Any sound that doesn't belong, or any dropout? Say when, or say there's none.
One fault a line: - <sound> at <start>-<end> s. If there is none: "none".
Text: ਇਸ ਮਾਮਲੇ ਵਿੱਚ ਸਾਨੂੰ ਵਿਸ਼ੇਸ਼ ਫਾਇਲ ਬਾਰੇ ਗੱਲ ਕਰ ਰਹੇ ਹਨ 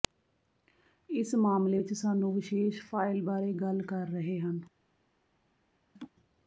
- laugh at 6.0-6.1 s